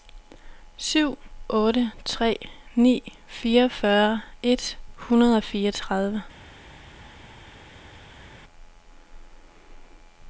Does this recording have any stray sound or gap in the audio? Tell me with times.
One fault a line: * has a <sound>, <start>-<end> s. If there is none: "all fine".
all fine